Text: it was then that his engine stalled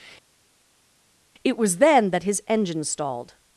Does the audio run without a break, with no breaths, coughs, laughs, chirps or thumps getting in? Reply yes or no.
yes